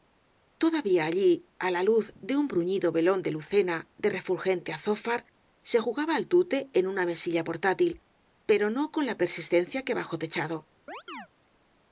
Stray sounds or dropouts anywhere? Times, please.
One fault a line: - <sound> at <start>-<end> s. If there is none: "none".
- chirp at 10.9-11.3 s